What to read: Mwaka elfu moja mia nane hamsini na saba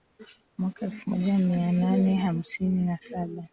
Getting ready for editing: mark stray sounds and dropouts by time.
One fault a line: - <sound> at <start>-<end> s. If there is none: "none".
none